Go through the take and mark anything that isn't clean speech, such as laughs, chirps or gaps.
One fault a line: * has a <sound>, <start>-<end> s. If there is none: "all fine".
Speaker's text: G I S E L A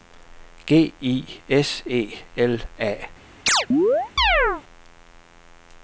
* has a chirp, 3.5-4.6 s